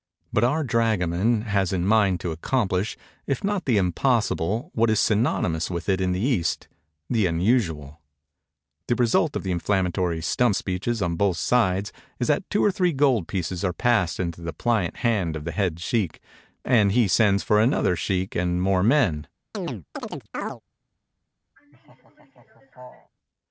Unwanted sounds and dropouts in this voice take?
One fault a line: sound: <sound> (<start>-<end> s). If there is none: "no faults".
sound: chirp (19.5-20.6 s)
sound: laugh (21.6-23.1 s)